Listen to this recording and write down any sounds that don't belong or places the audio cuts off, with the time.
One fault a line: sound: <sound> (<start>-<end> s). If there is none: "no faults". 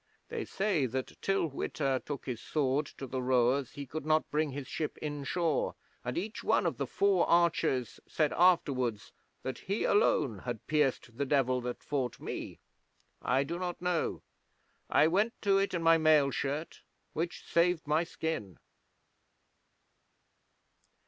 no faults